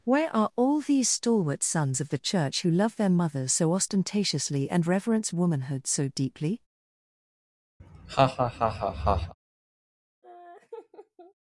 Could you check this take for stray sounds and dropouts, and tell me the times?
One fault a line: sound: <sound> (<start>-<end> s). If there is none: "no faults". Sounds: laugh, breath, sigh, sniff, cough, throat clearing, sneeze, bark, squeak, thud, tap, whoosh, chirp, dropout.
sound: laugh (7.8-9.3 s)
sound: laugh (10.2-11.3 s)